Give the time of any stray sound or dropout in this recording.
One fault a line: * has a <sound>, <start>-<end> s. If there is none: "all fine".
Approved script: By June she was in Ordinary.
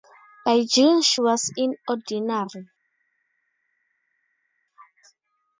all fine